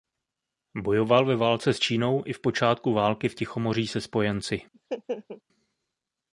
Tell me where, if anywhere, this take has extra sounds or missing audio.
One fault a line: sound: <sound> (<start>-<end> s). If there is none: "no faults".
sound: laugh (4.7-5.4 s)